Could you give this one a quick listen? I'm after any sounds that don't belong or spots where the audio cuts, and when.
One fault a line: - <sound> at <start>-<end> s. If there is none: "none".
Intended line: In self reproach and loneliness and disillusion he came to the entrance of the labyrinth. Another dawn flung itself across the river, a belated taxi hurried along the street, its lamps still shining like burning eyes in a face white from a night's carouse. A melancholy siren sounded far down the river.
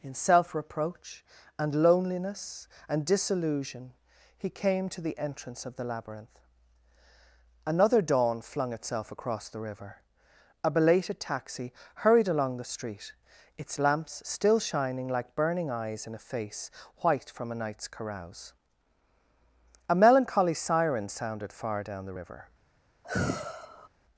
- sigh at 23.0-23.9 s